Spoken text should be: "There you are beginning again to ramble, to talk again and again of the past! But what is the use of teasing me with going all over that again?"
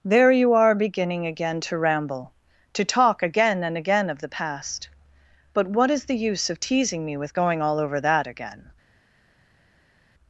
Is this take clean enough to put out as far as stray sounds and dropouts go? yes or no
yes